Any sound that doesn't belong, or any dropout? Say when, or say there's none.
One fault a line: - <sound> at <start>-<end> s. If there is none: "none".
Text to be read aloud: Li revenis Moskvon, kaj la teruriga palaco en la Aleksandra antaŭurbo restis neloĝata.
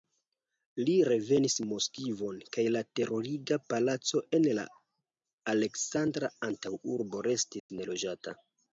- dropout at 7.6-7.7 s